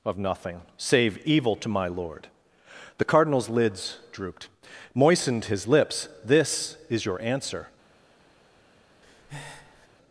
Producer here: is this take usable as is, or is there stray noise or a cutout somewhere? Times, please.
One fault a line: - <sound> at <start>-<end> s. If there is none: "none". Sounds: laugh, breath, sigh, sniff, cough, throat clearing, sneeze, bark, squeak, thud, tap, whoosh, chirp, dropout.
- breath at 9.0-9.9 s